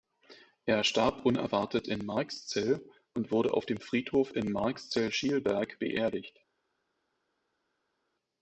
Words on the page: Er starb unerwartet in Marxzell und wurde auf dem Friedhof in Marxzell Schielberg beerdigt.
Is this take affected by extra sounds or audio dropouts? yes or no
no